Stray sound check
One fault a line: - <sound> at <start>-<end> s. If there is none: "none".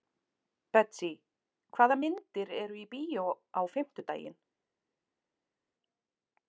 none